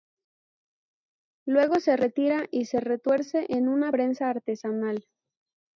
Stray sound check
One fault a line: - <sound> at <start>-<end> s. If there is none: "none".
none